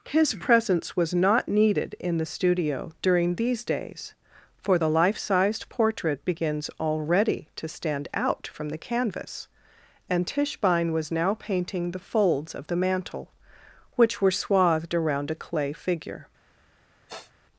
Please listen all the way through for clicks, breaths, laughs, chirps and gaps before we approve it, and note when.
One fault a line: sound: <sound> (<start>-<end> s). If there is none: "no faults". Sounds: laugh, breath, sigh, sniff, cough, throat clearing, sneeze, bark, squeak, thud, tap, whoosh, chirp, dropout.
sound: sniff (17.1-17.3 s)